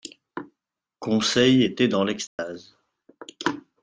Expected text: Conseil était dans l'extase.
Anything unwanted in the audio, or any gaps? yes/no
yes